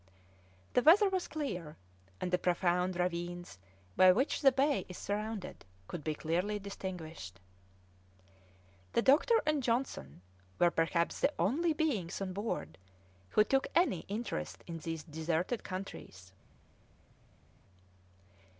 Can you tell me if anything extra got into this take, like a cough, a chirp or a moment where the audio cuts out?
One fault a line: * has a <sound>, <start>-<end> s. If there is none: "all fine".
all fine